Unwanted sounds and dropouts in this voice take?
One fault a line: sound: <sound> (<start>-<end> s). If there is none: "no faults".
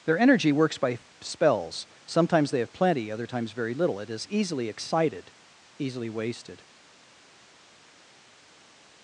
no faults